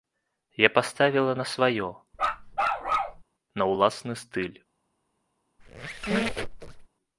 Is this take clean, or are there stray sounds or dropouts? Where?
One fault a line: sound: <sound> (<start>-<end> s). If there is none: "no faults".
sound: bark (2.1-3.2 s)
sound: squeak (5.6-6.9 s)